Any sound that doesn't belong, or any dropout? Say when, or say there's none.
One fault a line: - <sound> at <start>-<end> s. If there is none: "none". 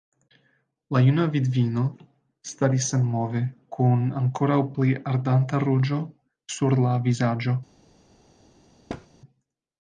- thud at 8.9-9.1 s